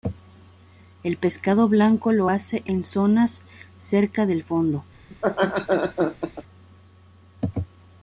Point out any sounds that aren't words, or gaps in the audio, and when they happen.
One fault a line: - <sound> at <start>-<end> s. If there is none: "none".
- laugh at 5.1-6.4 s